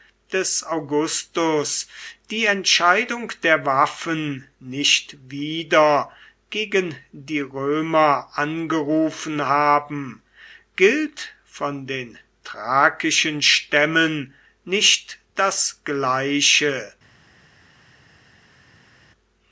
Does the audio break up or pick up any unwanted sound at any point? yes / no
no